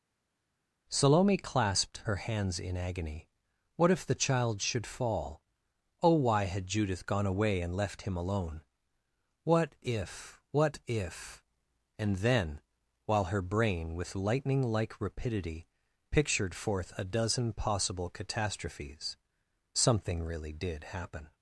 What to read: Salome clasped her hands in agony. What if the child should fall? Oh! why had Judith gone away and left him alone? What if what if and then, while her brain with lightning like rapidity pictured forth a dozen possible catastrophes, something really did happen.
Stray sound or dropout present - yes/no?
no